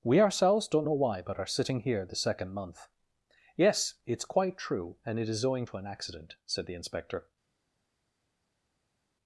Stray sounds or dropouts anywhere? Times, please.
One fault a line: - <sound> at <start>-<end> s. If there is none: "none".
none